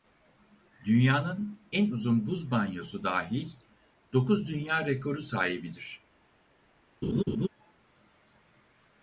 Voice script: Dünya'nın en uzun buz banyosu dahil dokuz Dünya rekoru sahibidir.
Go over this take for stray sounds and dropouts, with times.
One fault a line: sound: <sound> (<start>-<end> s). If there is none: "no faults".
sound: laugh (7.0-7.5 s)